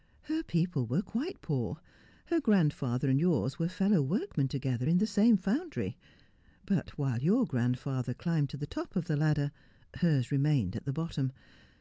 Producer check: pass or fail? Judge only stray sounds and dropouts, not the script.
pass